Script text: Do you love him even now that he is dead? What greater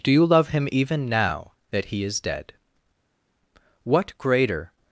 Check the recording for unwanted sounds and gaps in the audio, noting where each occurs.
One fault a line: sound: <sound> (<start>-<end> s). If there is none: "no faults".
no faults